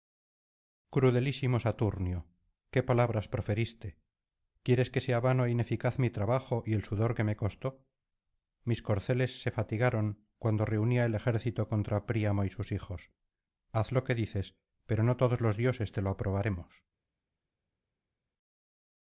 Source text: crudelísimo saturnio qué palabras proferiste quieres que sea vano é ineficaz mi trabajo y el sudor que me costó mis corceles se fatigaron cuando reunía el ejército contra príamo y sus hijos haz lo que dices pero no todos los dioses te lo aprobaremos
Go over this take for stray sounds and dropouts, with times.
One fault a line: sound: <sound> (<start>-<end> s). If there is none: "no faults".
no faults